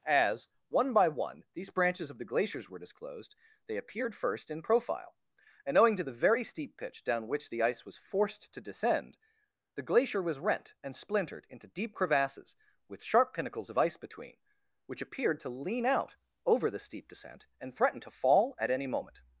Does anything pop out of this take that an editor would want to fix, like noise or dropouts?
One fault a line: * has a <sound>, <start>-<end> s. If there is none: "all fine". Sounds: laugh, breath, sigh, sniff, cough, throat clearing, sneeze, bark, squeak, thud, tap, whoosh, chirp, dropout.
all fine